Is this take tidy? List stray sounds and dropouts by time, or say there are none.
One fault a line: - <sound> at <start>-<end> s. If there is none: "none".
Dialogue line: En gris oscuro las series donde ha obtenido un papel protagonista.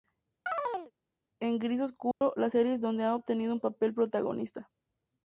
- chirp at 0.5-0.9 s
- dropout at 2.1-2.2 s